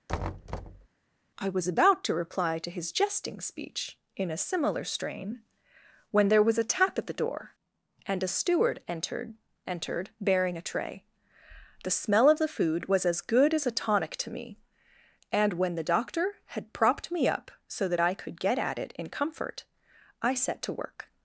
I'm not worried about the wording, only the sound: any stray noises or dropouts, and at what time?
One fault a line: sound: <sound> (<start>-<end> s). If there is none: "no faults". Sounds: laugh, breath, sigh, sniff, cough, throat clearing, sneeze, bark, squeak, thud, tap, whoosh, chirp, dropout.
sound: thud (0.1-0.9 s)